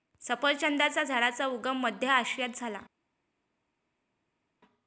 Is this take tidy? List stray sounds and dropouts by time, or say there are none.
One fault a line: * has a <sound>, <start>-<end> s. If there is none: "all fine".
all fine